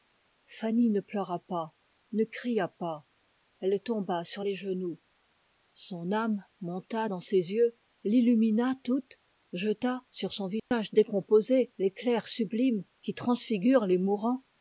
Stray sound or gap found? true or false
true